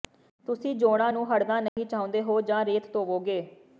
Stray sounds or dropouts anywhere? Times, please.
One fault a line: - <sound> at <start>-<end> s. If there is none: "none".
- dropout at 1.7-1.8 s